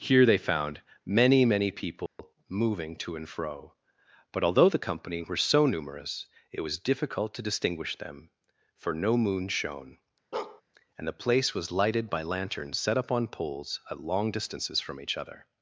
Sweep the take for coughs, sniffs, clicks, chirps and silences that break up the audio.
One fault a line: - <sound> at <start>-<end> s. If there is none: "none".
- dropout at 2.1-2.2 s
- bark at 10.3-10.6 s